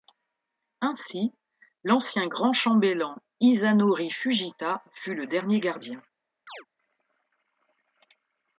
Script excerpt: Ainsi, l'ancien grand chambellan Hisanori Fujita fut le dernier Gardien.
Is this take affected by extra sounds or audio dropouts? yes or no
yes